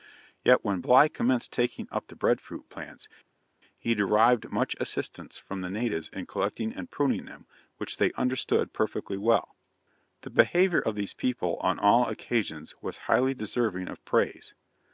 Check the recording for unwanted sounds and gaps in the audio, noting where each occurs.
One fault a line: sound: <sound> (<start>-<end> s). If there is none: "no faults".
no faults